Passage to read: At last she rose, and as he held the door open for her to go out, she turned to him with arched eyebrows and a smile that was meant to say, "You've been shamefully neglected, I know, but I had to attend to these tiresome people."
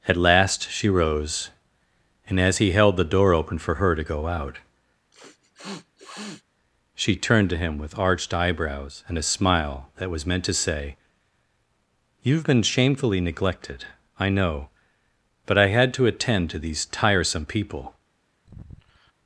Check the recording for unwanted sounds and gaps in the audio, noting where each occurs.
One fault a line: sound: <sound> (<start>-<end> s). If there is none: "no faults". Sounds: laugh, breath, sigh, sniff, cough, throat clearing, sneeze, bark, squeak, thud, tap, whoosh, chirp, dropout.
sound: sniff (5.1-6.4 s)
sound: sigh (18.4-19.1 s)